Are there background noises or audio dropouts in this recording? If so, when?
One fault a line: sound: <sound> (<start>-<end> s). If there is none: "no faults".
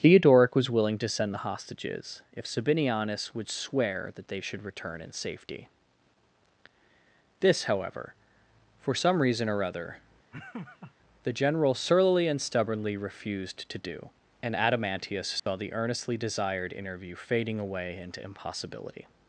sound: laugh (10.3-10.9 s)
sound: dropout (15.4-15.5 s)